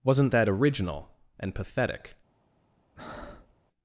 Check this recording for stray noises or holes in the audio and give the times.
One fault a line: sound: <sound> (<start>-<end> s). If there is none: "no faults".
sound: breath (3.0-3.5 s)